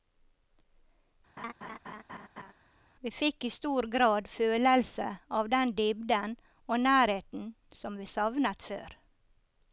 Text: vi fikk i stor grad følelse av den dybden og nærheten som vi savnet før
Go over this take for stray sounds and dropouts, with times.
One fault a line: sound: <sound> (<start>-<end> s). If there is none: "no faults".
sound: laugh (1.4-2.5 s)